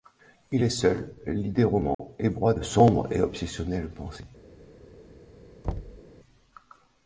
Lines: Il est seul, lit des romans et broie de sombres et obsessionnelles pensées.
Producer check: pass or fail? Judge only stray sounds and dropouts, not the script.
fail